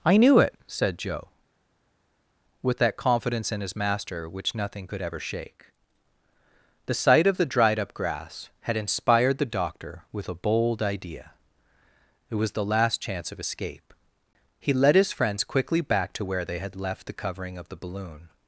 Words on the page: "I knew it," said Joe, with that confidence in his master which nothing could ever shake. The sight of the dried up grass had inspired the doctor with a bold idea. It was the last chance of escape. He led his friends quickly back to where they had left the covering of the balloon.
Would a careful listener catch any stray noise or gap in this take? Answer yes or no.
no